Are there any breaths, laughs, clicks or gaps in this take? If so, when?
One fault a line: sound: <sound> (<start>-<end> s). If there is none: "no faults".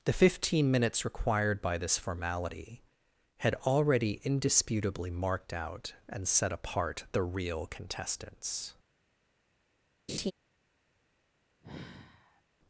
sound: laugh (10.1-10.3 s)
sound: sigh (11.6-12.4 s)